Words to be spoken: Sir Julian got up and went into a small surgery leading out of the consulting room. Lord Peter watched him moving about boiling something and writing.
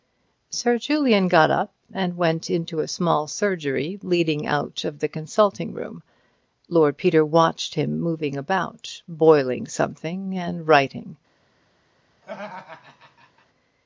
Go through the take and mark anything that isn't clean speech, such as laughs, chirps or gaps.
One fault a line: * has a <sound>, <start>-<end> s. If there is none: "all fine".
* has a laugh, 12.2-13.5 s